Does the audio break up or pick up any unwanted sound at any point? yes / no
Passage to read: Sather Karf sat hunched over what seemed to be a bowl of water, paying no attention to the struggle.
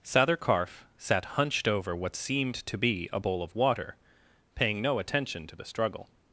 no